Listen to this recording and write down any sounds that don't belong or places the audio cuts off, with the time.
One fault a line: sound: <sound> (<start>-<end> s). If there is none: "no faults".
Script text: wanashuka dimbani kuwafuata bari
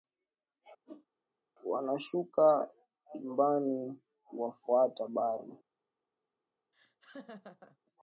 sound: whoosh (0.9-1.1 s)
sound: laugh (6.7-7.8 s)